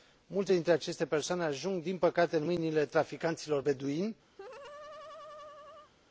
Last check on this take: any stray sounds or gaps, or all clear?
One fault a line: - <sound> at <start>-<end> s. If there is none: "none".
- laugh at 4.4-5.9 s